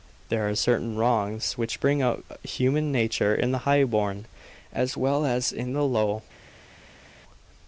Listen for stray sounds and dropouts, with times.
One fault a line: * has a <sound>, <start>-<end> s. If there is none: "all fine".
all fine